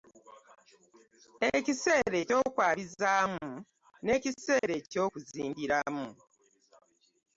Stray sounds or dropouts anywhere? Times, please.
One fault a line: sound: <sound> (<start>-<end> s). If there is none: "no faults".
sound: dropout (4.6-4.6 s)